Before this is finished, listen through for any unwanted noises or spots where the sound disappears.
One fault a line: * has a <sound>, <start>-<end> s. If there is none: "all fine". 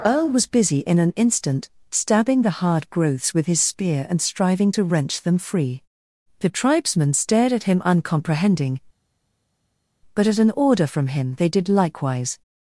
all fine